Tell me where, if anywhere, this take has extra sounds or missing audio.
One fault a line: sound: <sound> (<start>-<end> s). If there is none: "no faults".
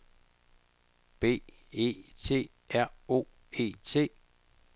no faults